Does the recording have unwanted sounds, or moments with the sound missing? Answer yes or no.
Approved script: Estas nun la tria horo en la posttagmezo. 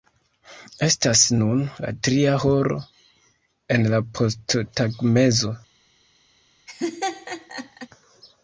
yes